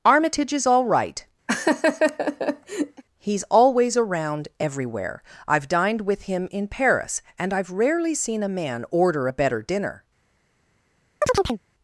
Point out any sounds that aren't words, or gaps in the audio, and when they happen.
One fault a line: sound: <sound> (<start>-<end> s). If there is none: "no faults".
sound: laugh (1.5-3.0 s)
sound: chirp (11.2-11.6 s)